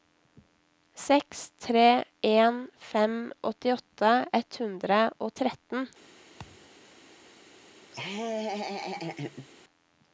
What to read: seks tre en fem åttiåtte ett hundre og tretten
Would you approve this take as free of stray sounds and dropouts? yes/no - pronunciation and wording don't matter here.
no